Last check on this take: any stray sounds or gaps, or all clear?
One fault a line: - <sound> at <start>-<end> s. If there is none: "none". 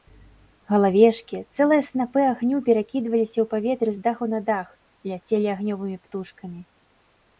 none